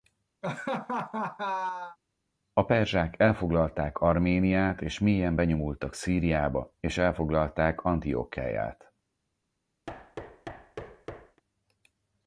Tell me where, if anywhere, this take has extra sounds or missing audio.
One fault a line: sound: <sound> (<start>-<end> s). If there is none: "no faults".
sound: laugh (0.4-2.0 s)
sound: thud (9.9-11.4 s)